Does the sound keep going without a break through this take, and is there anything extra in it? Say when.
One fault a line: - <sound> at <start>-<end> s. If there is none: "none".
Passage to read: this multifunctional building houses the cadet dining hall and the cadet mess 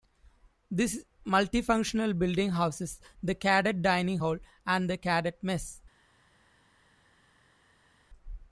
none